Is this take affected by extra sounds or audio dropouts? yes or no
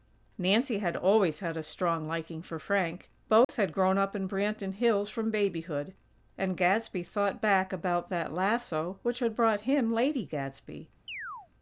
yes